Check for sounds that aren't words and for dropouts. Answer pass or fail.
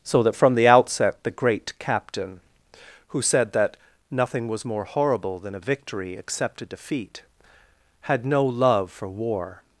pass